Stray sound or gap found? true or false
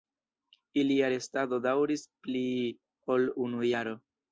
false